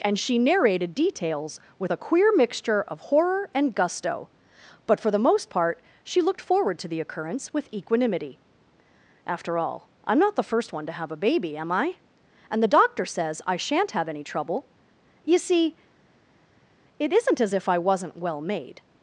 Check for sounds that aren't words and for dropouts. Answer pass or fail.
pass